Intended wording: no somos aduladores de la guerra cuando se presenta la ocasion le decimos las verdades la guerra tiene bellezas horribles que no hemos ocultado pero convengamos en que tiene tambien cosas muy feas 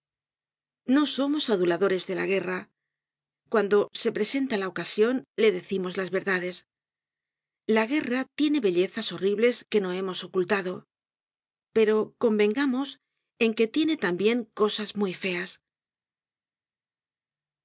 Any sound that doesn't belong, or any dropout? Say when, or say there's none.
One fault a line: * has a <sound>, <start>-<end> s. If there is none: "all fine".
all fine